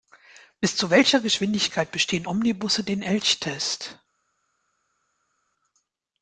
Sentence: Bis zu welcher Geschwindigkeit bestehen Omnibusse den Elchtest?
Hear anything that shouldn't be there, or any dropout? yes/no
no